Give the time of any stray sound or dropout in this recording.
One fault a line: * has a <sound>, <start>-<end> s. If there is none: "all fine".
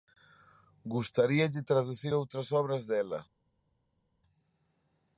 all fine